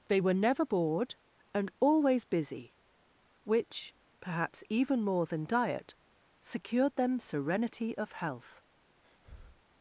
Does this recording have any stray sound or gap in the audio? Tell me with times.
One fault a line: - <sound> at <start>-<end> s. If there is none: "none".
- breath at 9.0-9.6 s